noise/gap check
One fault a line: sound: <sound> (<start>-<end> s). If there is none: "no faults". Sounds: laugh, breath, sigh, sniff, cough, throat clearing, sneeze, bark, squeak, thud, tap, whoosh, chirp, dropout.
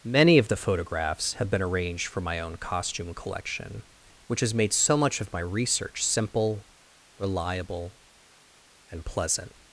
no faults